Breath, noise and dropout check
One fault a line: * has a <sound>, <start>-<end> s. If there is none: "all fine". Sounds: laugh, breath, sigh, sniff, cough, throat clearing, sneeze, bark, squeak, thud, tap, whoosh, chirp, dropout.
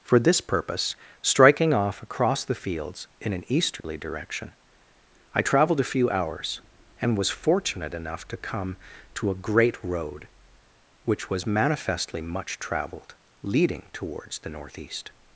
* has a dropout, 3.8-3.8 s